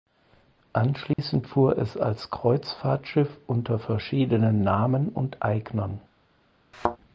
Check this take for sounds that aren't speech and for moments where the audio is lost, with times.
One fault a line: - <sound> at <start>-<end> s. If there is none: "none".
- dropout at 1.1-1.2 s
- thud at 6.7-7.0 s